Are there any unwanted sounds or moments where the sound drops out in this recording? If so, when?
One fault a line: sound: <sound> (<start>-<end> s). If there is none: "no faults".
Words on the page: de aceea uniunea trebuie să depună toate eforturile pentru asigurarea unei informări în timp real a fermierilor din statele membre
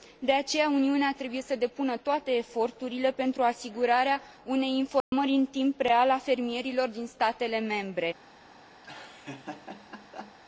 sound: dropout (5.0-5.1 s)
sound: laugh (8.8-10.4 s)